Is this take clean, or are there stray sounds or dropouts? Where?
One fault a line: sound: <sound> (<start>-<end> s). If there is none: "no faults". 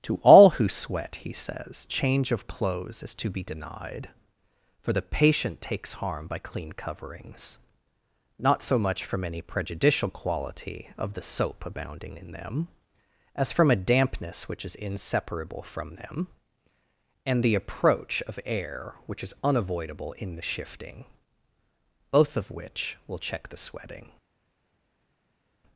no faults